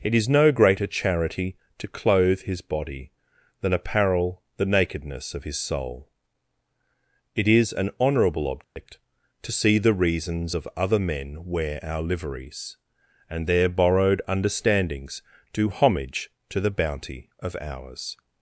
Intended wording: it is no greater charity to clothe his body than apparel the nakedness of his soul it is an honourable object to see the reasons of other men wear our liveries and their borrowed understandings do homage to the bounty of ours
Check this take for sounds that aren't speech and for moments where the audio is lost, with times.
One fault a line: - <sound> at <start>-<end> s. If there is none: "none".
- dropout at 8.6-8.8 s